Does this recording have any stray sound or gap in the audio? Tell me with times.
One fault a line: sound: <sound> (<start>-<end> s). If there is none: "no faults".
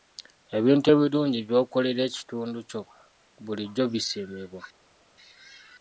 no faults